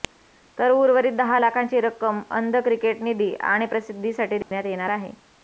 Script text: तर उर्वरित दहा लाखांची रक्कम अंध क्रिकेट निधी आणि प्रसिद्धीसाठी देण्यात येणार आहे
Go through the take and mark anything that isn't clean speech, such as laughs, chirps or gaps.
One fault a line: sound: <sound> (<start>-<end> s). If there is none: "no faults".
sound: dropout (4.4-4.5 s)